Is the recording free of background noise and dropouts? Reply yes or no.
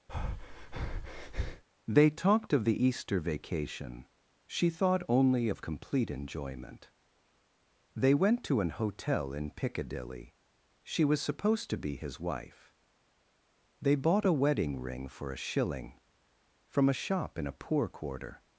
no